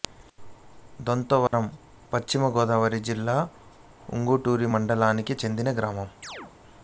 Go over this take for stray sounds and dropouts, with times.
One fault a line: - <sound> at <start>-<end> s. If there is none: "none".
- dropout at 1.5-1.5 s
- chirp at 6.2-6.5 s